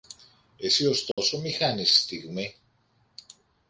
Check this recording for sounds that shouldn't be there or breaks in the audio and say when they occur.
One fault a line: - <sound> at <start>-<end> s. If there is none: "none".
- dropout at 1.1-1.2 s